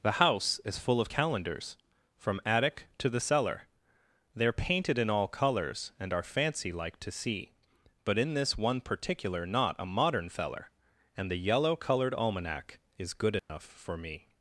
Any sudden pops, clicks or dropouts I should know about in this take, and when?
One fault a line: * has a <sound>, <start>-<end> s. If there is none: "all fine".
* has a dropout, 13.4-13.5 s